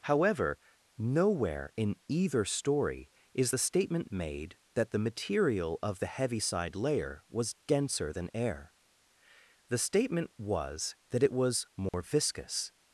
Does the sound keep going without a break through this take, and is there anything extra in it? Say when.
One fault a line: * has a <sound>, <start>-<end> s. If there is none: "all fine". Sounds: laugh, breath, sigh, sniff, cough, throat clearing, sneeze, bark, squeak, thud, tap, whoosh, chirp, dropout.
* has a dropout, 11.9-11.9 s